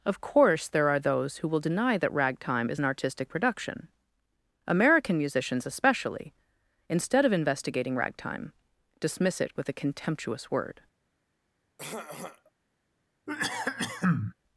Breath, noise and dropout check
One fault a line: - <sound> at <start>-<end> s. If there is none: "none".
- throat clearing at 11.8-12.5 s
- cough at 13.3-14.3 s